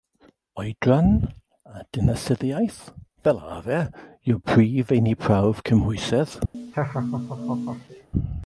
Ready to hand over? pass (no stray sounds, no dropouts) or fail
fail